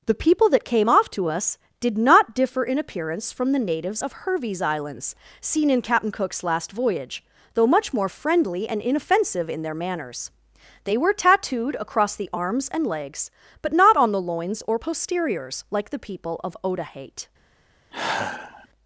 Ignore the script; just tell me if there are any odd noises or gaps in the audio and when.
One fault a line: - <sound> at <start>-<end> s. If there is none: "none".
- sigh at 17.9-18.7 s